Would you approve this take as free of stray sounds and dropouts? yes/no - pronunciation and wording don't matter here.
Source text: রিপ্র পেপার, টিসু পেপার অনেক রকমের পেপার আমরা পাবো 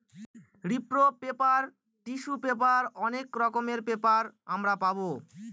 yes